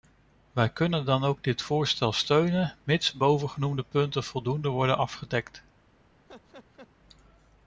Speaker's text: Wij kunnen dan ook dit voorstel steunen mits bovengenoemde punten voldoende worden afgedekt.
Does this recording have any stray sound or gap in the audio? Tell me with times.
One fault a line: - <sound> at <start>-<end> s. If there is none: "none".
- laugh at 6.3-6.9 s